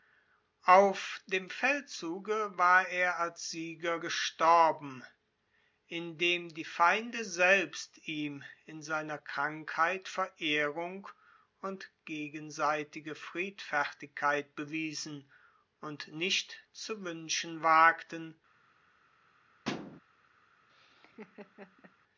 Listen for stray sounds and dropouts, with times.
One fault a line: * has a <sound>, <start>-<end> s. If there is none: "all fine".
* has a thud, 19.6-20.0 s
* has a laugh, 20.7-22.0 s